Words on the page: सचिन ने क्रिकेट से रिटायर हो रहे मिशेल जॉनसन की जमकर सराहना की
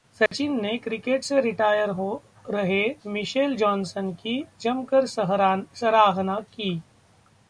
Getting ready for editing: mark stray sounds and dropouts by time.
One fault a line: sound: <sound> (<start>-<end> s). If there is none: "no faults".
sound: dropout (0.3-0.3 s)